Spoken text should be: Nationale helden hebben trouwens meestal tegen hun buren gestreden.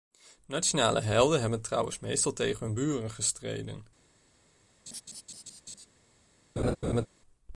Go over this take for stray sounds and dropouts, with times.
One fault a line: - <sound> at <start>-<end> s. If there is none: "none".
- laugh at 4.9-5.9 s
- laugh at 6.6-7.1 s